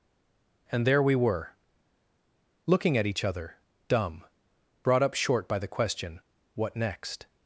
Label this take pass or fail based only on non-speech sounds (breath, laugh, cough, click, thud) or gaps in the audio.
pass